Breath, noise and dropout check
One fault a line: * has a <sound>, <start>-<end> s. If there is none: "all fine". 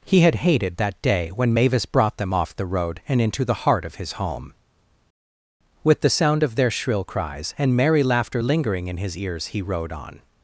all fine